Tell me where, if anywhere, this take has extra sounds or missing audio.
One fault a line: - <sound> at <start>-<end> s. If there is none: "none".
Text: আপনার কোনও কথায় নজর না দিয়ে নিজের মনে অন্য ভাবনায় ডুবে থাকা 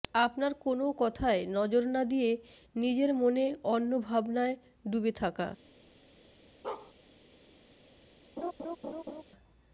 - bark at 6.6-6.9 s
- laugh at 8.4-9.2 s